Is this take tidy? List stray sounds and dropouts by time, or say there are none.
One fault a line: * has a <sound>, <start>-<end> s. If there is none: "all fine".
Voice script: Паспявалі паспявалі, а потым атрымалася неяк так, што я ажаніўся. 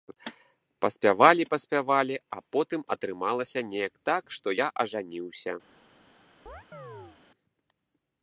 * has a chirp, 6.5-7.2 s